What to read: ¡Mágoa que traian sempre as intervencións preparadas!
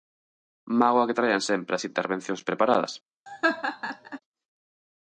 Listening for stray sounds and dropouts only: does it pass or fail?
fail